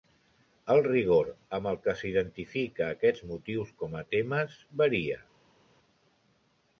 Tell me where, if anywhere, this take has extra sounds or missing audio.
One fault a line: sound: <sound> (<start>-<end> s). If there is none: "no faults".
no faults